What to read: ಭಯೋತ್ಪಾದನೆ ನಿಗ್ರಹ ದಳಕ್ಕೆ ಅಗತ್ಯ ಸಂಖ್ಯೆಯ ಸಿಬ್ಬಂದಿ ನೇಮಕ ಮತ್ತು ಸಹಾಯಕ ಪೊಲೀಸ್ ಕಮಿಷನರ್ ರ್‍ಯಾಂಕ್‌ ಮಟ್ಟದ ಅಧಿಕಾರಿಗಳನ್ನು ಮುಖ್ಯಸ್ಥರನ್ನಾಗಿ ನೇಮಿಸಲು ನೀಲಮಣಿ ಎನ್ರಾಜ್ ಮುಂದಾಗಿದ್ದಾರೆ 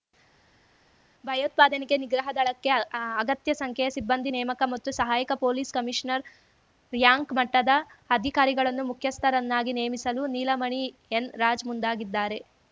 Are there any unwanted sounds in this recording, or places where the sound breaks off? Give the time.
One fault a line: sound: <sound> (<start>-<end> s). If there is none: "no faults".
no faults